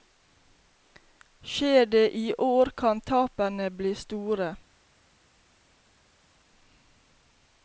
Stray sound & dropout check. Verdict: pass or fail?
pass